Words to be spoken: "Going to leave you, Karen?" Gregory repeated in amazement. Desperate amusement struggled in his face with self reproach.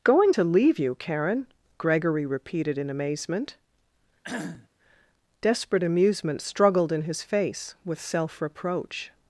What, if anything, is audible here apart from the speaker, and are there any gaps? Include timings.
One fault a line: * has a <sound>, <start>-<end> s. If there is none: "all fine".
* has a cough, 4.2-4.7 s